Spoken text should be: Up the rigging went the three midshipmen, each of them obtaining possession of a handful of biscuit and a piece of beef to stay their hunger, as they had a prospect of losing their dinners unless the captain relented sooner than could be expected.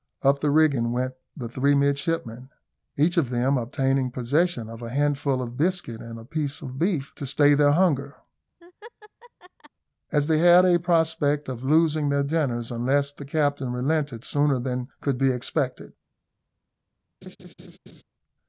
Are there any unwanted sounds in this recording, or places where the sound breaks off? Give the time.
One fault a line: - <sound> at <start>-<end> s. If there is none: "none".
- laugh at 8.6-9.7 s
- laugh at 17.2-18.0 s